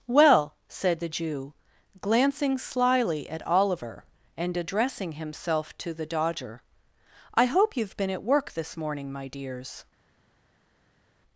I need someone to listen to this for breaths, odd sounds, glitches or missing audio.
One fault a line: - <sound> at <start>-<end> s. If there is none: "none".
none